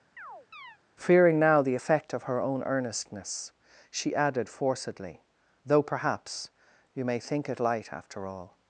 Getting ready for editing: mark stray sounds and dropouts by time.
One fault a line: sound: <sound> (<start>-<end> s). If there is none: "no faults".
sound: chirp (0.2-0.8 s)